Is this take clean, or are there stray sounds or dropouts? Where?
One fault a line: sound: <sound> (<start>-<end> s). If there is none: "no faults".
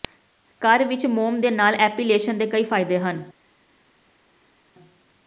no faults